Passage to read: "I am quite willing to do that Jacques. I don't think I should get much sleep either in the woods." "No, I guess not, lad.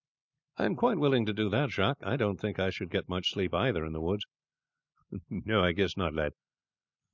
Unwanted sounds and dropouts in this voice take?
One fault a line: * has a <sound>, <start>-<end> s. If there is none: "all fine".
all fine